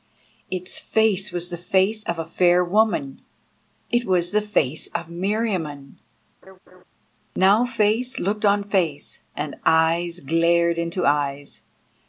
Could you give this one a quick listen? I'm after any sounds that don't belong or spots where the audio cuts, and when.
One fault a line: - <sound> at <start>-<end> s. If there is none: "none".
- laugh at 6.4-6.8 s